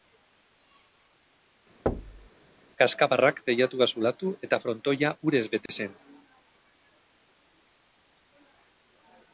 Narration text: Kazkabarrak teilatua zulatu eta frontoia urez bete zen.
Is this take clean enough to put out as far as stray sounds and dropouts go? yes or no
no